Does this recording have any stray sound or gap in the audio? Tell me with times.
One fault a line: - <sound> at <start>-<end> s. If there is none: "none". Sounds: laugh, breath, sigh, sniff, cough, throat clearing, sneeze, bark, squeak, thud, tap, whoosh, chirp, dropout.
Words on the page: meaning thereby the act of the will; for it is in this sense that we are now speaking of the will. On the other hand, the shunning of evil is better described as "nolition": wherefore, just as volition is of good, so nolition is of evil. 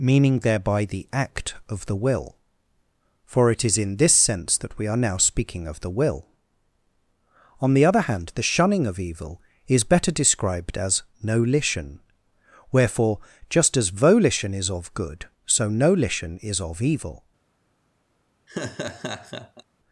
- laugh at 18.5-19.6 s